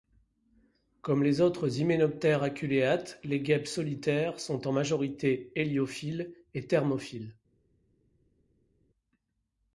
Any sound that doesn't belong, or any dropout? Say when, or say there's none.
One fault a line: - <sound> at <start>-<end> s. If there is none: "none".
none